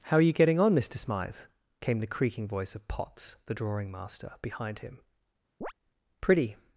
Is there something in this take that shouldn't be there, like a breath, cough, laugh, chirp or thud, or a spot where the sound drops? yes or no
yes